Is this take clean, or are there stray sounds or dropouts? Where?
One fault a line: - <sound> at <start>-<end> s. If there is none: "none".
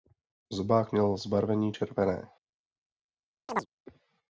- chirp at 3.5-3.7 s